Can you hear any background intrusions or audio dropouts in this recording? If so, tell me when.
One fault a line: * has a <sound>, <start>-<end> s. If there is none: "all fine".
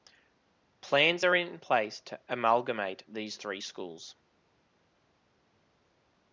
all fine